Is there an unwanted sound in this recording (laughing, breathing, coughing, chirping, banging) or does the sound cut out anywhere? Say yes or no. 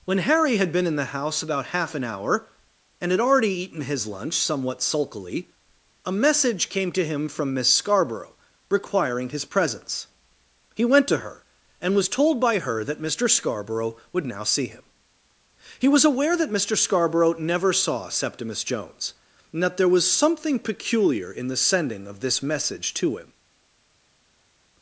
no